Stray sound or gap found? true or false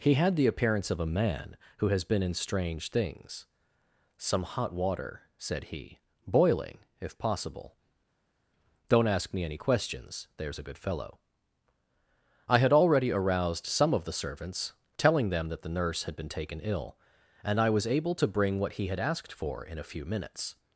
false